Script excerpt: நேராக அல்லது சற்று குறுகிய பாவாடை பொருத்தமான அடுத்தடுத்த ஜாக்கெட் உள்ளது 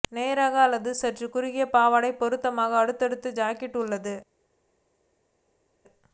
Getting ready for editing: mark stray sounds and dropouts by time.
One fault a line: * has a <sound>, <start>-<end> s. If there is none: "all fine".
all fine